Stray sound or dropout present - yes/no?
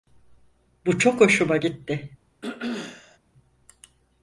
yes